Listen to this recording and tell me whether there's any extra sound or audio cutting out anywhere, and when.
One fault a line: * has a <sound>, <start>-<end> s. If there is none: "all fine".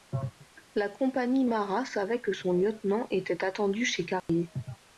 * has a dropout, 4.2-4.3 s